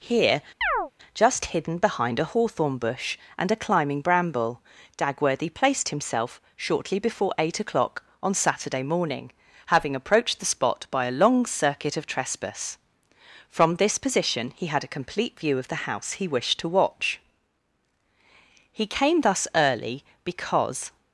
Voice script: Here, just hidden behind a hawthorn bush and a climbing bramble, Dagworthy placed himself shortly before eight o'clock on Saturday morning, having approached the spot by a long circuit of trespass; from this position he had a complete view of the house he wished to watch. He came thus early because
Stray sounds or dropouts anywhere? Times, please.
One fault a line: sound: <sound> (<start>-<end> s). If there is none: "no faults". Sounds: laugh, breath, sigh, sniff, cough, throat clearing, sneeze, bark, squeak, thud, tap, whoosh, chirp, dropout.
sound: chirp (0.6-0.9 s)